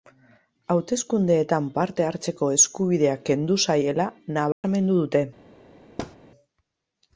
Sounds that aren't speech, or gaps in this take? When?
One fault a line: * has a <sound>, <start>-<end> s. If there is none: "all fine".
* has a dropout, 4.5-4.6 s
* has a thud, 6.0-6.2 s